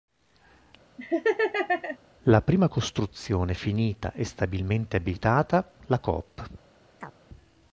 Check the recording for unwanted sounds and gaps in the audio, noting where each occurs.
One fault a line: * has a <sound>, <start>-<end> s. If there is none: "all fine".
* has a laugh, 1.0-2.0 s
* has a chirp, 7.0-7.2 s